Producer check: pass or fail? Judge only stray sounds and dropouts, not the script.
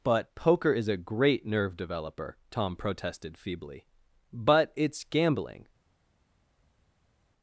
pass